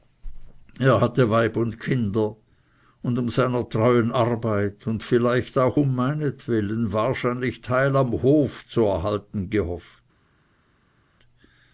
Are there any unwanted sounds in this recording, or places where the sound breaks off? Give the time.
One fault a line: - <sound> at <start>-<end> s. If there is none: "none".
none